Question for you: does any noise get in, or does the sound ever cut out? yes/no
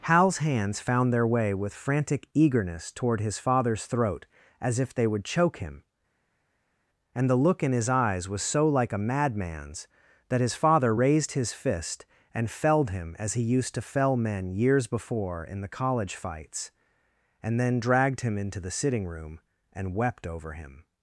no